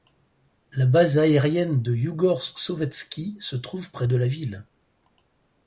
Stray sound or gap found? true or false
false